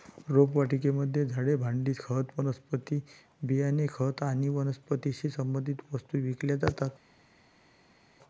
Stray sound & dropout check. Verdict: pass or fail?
pass